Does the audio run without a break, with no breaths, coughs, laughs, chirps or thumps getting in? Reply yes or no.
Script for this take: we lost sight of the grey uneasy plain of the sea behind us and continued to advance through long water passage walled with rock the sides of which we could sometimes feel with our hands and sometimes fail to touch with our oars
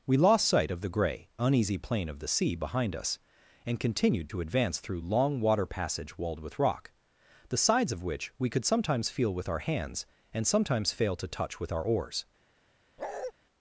no